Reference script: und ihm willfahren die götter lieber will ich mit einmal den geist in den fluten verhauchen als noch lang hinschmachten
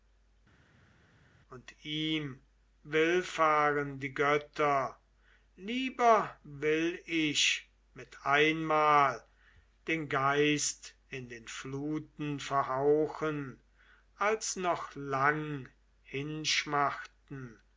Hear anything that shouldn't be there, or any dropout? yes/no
no